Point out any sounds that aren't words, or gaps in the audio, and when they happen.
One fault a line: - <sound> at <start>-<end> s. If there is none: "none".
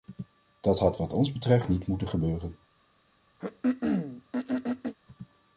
- throat clearing at 3.4-4.9 s